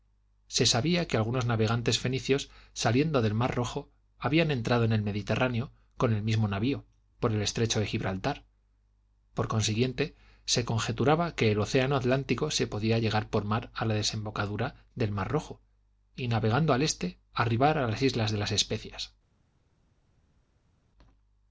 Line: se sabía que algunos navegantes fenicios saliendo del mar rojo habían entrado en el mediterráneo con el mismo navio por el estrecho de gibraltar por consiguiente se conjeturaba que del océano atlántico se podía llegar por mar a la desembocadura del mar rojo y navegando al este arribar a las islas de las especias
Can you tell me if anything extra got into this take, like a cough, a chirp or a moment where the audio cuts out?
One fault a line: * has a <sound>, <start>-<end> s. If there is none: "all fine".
all fine